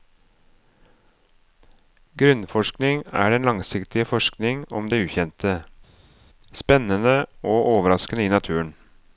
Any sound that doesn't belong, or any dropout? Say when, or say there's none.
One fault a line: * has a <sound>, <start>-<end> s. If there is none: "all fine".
all fine